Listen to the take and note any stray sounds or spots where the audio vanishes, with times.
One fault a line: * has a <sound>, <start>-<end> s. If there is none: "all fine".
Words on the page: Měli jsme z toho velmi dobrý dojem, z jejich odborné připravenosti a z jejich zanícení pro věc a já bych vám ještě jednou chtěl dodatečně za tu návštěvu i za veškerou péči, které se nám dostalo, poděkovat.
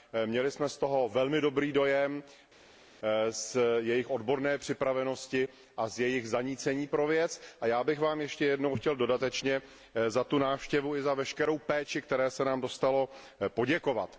all fine